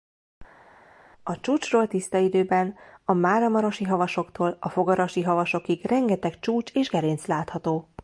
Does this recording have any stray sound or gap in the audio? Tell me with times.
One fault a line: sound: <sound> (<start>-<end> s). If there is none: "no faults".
no faults